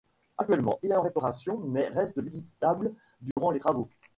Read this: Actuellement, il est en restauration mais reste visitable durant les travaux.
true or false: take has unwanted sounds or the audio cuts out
true